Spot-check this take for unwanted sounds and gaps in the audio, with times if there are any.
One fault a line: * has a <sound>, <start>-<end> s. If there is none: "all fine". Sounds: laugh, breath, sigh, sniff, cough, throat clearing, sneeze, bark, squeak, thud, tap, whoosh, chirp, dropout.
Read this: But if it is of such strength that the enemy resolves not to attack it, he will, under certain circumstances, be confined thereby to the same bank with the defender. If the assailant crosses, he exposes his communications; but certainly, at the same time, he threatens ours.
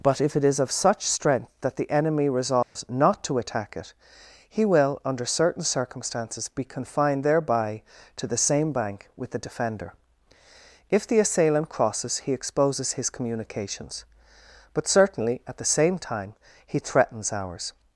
* has a dropout, 2.6-2.8 s